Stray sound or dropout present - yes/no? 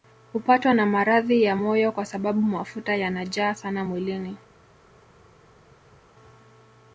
no